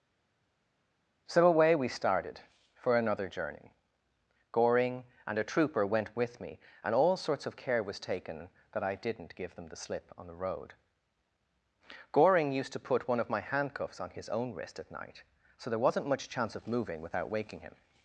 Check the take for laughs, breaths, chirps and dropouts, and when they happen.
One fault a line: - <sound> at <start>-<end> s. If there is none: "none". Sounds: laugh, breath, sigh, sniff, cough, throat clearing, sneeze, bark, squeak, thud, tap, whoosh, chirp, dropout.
none